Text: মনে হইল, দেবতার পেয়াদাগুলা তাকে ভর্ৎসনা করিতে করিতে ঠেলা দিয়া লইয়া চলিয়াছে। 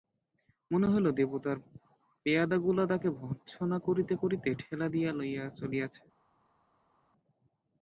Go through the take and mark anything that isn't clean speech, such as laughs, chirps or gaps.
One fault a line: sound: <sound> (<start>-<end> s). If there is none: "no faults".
no faults